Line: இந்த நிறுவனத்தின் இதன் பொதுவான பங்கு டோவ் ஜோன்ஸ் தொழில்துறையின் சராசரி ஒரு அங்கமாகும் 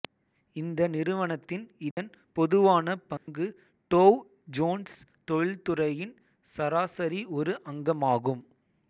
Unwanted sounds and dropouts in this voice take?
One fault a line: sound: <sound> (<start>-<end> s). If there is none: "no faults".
sound: dropout (1.9-2.0 s)
sound: dropout (3.2-3.3 s)